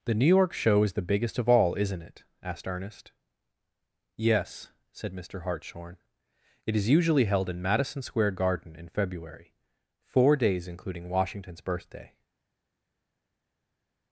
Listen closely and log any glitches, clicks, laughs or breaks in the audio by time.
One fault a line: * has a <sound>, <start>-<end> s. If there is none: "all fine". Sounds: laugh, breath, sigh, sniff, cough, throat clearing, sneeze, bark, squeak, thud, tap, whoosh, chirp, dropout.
all fine